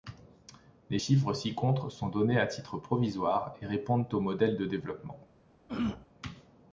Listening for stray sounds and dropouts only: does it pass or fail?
fail